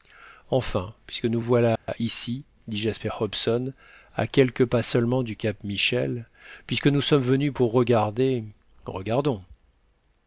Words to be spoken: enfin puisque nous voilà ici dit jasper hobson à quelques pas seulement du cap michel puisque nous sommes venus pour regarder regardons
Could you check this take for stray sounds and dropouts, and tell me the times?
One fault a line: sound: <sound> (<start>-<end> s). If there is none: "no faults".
sound: dropout (1.8-1.9 s)